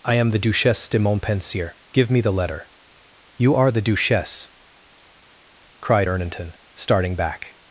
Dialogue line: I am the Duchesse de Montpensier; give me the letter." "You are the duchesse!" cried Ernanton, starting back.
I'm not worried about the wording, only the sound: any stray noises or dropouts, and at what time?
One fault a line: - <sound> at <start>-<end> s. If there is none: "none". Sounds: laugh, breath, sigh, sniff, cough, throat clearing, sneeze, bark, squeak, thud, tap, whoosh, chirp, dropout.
none